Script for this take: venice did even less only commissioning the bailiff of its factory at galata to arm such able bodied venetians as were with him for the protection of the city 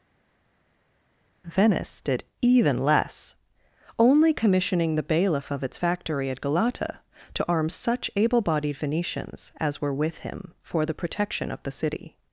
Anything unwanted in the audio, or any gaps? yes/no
no